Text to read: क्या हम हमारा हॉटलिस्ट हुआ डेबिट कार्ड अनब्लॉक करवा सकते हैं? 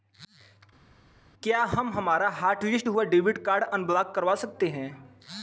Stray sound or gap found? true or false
false